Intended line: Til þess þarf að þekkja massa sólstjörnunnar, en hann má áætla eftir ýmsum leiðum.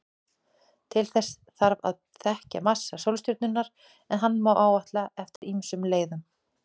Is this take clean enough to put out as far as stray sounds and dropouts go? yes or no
no